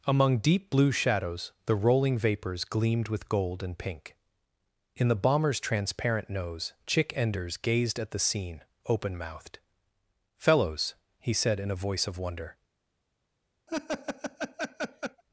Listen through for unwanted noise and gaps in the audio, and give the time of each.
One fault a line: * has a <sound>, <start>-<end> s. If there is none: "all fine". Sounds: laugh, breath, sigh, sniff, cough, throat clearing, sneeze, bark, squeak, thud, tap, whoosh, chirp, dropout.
* has a laugh, 13.7-15.2 s